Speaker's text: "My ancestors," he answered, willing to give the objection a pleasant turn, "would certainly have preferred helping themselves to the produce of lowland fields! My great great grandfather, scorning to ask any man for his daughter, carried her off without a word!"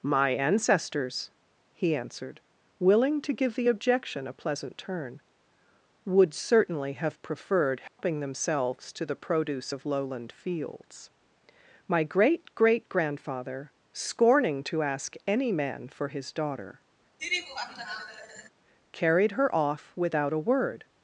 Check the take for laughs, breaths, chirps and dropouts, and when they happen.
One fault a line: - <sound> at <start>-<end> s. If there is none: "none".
- dropout at 7.9-8.0 s
- laugh at 17.2-18.5 s